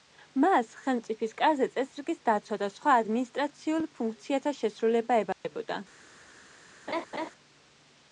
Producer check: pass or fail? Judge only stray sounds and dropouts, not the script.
fail